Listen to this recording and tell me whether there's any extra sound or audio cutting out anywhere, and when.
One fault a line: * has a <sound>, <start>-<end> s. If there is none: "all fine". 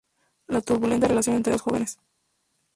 all fine